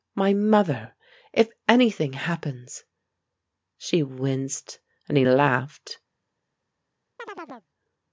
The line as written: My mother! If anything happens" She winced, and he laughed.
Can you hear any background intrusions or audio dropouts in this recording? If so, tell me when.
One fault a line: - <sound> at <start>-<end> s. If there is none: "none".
- chirp at 7.2-7.7 s